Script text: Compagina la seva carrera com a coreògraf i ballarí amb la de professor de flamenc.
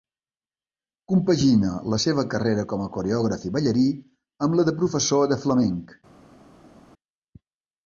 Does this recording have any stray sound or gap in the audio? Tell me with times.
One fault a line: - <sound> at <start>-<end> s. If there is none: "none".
none